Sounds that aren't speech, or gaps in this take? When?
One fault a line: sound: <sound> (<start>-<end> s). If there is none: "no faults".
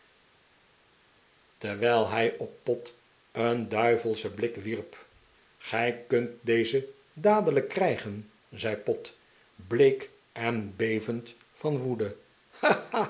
no faults